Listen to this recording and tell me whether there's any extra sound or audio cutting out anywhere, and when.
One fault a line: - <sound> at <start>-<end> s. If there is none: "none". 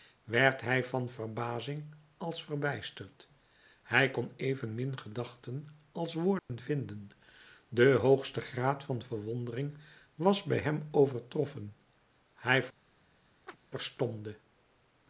- dropout at 6.4-6.5 s
- chirp at 13.5-13.6 s